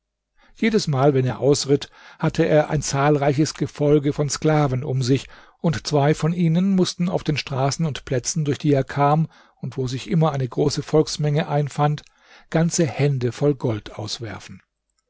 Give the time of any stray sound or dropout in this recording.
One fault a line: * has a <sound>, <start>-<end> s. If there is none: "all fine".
all fine